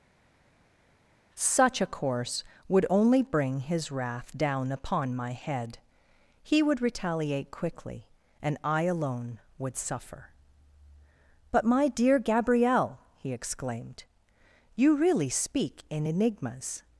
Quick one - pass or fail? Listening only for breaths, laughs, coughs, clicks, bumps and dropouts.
pass